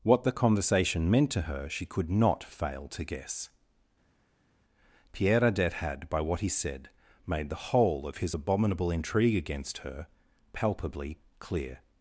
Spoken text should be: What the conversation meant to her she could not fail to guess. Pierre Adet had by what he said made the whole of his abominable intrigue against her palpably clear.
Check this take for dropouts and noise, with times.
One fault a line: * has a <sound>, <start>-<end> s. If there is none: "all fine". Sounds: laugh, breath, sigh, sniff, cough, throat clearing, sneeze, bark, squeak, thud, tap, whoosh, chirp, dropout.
all fine